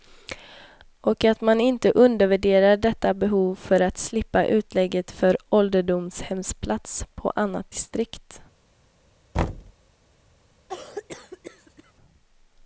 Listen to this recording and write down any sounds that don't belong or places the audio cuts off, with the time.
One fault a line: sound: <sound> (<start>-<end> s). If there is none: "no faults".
sound: thud (9.3-9.7 s)
sound: cough (10.7-11.9 s)